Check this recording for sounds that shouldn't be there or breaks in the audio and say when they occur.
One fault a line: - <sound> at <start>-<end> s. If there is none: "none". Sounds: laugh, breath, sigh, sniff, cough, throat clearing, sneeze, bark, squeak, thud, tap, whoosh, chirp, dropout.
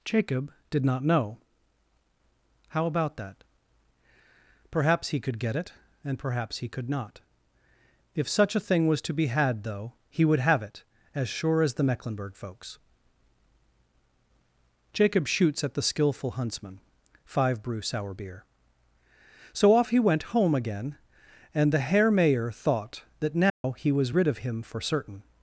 - dropout at 23.5-23.6 s